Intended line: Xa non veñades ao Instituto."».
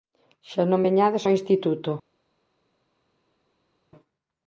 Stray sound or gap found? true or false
false